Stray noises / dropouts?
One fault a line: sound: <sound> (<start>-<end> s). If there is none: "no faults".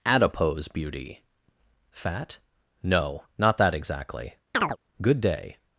sound: chirp (4.5-4.8 s)